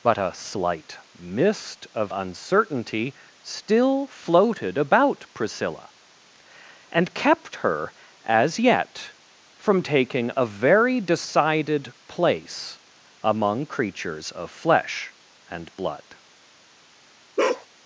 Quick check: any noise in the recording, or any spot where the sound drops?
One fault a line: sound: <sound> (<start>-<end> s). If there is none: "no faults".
sound: bark (17.4-17.7 s)